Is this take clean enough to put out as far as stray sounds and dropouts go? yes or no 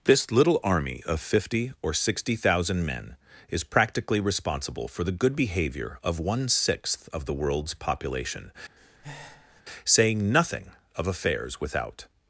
no